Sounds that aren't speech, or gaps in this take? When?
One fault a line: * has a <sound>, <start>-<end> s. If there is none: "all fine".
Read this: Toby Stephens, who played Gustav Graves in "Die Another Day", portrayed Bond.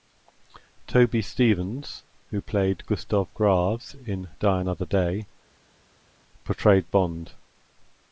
all fine